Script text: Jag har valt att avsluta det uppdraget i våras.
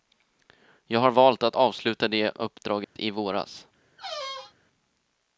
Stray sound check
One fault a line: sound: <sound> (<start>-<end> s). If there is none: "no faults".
sound: dropout (2.8-3.0 s)
sound: squeak (4.0-4.6 s)